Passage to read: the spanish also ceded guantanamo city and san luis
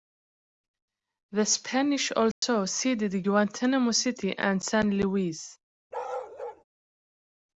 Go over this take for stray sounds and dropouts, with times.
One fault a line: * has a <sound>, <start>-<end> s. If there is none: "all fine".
* has a dropout, 2.3-2.4 s
* has a bark, 5.9-6.6 s